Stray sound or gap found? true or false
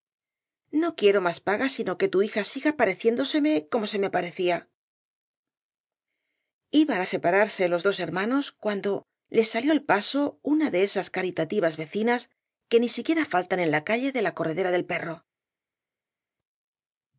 false